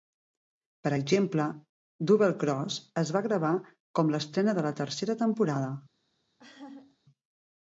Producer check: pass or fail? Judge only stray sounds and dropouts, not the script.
fail